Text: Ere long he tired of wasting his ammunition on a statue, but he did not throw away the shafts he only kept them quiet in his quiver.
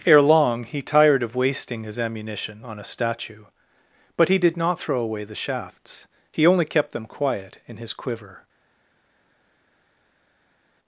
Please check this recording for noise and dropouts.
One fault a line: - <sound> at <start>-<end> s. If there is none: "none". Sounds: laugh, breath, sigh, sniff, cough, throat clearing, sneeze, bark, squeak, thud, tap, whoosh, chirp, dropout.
none